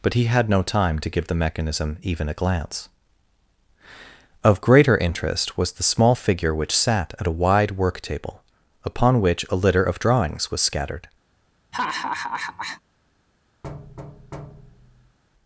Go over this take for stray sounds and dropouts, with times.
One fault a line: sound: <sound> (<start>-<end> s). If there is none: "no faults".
sound: laugh (11.7-12.8 s)
sound: thud (13.6-15.2 s)